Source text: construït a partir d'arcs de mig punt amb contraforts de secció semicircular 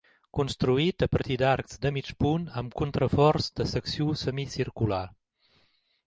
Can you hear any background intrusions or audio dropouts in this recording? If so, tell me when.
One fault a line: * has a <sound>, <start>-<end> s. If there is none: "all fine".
all fine